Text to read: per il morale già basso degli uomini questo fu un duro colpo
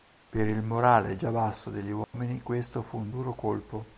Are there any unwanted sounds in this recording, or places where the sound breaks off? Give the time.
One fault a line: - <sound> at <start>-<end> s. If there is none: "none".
- dropout at 2.0-2.1 s